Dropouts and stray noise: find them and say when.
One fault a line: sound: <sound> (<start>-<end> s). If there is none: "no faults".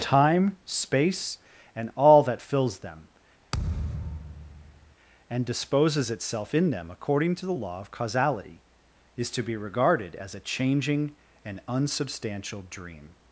sound: thud (3.5-5.0 s)